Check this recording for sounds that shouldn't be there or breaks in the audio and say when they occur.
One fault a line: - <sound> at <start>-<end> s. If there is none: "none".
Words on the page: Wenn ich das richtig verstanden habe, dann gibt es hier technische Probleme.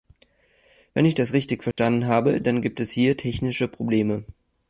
- dropout at 1.7-1.8 s